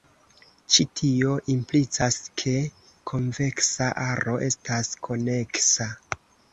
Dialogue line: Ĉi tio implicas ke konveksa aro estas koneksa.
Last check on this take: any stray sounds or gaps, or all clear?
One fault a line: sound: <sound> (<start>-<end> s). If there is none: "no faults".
no faults